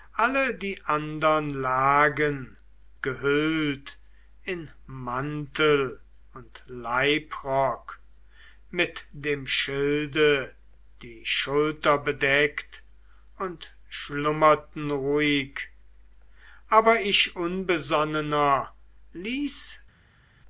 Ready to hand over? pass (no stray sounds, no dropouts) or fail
pass